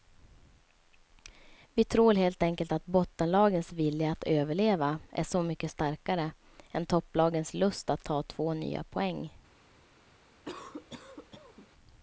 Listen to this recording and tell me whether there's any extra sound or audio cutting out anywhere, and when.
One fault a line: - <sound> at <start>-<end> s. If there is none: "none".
- cough at 10.4-11.7 s